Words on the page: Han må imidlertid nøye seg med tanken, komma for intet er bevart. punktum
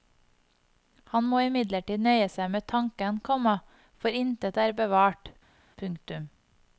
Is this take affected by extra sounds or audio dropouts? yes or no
no